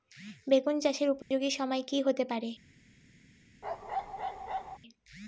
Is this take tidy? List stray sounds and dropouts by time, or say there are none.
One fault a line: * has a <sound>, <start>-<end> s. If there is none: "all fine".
* has a dropout, 1.2-1.3 s
* has a bark, 3.6-4.8 s